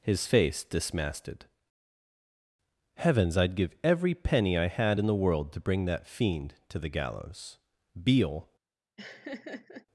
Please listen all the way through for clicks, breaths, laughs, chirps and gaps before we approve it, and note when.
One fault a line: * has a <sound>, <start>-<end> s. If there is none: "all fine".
* has a laugh, 9.0-9.9 s